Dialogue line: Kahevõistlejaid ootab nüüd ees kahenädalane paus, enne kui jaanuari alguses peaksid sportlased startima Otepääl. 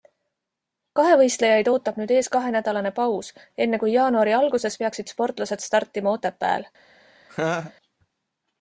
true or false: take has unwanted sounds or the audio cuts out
true